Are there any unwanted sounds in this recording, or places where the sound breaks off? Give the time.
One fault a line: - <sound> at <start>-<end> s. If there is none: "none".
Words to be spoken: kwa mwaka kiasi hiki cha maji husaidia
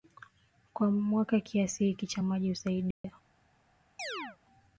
- dropout at 2.9-3.0 s
- chirp at 4.0-4.4 s